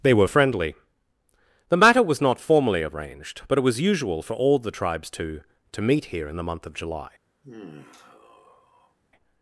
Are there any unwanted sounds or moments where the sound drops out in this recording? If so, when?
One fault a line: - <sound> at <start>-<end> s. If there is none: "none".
- sigh at 7.4-9.0 s